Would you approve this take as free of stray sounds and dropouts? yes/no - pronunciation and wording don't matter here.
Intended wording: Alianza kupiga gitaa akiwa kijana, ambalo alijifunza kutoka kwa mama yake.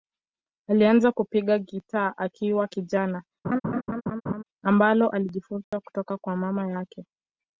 no